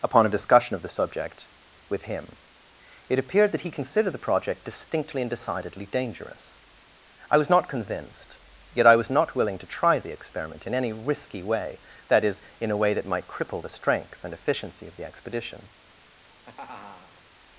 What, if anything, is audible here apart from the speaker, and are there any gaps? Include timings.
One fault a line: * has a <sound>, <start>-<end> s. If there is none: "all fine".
* has a laugh, 16.1-17.2 s